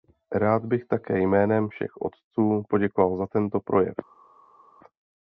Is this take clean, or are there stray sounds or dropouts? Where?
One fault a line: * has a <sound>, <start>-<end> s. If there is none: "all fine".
all fine